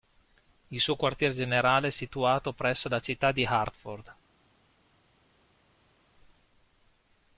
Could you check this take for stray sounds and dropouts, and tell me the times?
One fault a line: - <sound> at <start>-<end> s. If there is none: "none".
none